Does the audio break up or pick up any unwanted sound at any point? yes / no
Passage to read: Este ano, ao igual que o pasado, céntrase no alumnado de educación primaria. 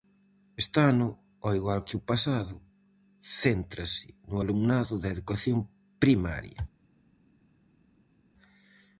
no